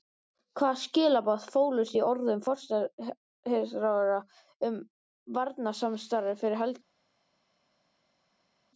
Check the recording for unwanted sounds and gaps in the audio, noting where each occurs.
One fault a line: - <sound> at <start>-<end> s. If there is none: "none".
none